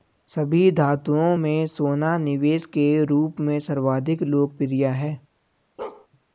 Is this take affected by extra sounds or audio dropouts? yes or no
yes